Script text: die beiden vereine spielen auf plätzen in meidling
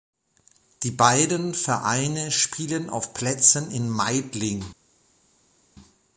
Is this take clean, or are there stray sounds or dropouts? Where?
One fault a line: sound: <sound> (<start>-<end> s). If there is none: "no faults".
no faults